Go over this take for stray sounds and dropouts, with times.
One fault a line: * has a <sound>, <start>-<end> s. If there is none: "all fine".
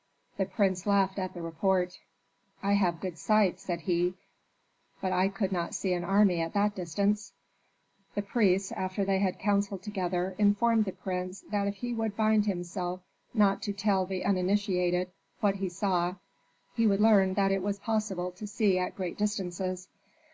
all fine